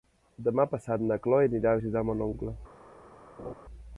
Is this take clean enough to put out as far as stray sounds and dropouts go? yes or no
no